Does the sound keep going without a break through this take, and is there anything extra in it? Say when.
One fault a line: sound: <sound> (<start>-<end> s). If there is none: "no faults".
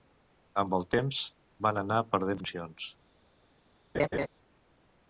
sound: laugh (3.9-4.3 s)